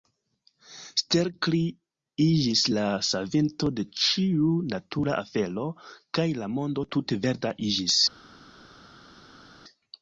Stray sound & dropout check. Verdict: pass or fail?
pass